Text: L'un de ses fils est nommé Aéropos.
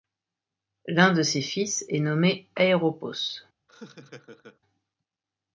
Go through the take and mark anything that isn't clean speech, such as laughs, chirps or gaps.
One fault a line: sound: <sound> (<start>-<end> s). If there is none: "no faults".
sound: laugh (3.7-4.6 s)